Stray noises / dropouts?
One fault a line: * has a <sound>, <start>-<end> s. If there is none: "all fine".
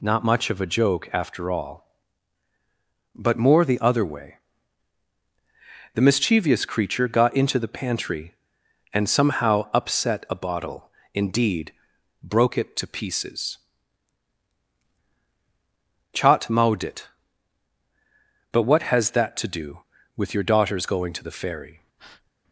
* has a breath, 22.0-22.3 s